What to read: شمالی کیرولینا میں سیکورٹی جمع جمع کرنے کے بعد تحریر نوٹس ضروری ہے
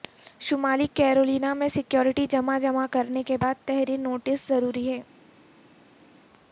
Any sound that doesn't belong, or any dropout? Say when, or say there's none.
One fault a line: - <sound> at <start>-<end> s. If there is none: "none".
none